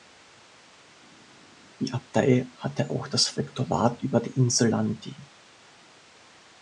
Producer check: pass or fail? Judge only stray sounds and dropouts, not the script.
pass